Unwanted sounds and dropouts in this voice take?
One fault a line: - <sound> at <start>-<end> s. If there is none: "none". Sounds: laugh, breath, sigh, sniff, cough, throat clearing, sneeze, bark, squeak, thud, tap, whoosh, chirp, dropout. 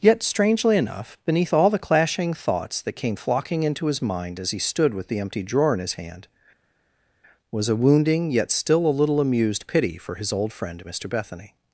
none